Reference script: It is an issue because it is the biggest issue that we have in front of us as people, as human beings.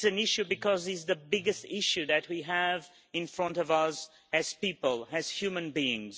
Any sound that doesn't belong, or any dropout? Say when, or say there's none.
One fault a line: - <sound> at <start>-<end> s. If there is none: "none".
none